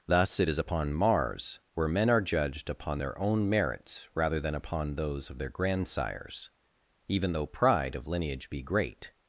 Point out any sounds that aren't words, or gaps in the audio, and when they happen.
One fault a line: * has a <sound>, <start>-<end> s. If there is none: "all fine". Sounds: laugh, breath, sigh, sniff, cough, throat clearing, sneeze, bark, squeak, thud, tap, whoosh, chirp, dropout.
all fine